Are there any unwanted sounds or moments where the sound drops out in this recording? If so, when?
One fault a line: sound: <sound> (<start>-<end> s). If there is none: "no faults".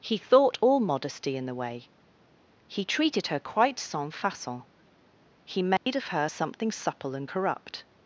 sound: dropout (5.8-5.9 s)